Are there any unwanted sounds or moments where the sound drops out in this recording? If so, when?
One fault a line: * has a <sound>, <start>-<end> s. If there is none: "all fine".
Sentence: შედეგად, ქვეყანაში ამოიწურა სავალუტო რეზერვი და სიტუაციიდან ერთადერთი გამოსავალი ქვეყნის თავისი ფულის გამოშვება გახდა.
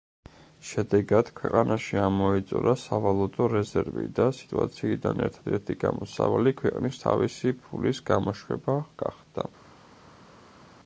all fine